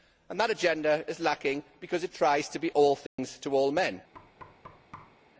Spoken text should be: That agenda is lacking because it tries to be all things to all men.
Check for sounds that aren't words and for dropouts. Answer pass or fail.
fail